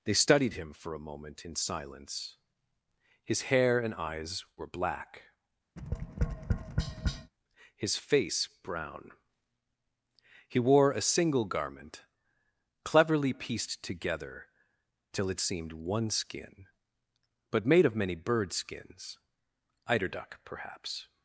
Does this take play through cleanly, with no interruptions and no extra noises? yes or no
no